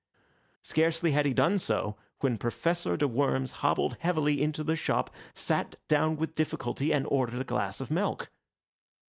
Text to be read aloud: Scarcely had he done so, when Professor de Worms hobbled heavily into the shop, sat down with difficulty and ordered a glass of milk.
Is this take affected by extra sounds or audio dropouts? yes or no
no